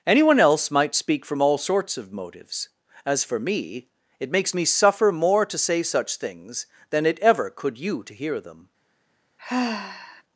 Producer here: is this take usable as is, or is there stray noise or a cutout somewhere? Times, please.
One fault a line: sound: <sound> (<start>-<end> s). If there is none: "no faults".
sound: sigh (9.4-10.2 s)